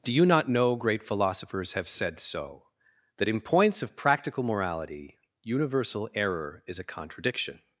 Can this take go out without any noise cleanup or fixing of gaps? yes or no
yes